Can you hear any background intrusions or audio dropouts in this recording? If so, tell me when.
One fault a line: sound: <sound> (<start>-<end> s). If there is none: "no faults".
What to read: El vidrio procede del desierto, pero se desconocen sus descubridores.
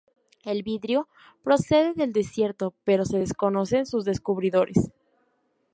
no faults